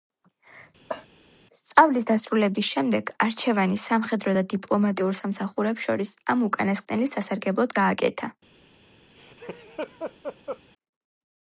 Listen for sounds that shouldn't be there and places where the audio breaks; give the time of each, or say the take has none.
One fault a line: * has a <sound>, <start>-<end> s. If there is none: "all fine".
* has a cough, 0.9-1.1 s
* has a laugh, 9.2-10.6 s